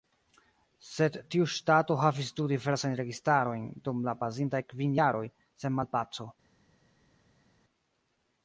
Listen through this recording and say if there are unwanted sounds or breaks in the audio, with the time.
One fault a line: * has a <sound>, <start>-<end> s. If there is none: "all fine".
all fine